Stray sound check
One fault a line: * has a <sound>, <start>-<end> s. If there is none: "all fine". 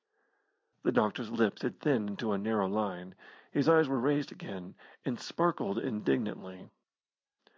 all fine